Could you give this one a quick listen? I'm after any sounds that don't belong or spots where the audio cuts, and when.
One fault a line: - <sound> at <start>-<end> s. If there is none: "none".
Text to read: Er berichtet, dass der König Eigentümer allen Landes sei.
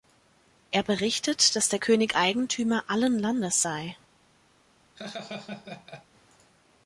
- laugh at 4.9-6.1 s